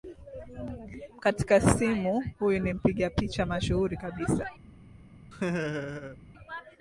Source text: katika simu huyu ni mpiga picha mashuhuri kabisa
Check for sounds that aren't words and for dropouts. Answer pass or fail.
fail